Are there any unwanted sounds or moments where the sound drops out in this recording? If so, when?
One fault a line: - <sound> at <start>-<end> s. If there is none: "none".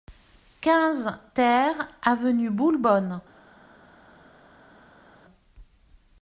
none